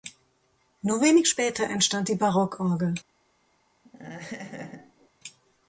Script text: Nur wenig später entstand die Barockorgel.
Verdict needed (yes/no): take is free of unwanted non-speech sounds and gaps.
no